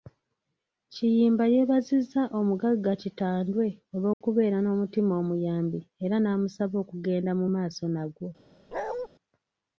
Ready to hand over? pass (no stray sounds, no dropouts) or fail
fail